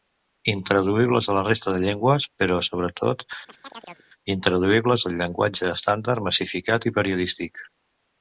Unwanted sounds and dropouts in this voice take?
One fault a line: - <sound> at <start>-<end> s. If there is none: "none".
- chirp at 3.5-4.1 s